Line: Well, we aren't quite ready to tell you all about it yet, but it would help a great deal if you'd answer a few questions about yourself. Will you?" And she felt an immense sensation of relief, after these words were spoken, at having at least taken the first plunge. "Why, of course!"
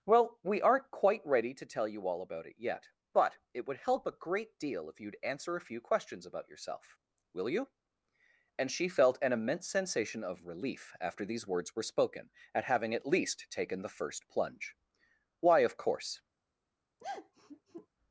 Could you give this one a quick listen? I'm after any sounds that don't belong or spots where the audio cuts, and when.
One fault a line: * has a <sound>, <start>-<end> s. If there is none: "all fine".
* has a sigh, 17.0-17.9 s